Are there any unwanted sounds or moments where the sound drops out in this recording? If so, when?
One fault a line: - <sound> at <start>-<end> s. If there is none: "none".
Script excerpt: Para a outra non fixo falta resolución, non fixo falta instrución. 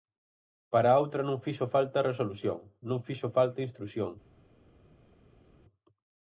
none